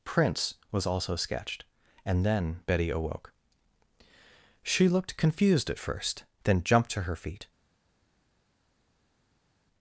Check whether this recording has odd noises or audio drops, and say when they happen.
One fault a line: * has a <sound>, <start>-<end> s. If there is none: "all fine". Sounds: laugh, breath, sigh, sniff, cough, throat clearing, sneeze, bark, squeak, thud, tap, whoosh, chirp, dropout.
all fine